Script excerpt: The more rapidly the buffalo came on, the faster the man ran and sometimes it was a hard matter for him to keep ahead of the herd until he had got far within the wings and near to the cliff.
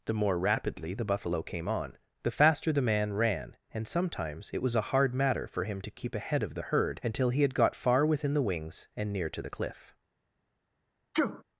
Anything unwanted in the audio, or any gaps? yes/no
yes